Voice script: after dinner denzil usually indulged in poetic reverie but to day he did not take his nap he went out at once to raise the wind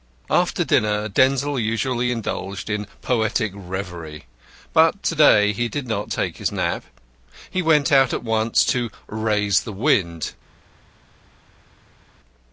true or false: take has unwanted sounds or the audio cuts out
false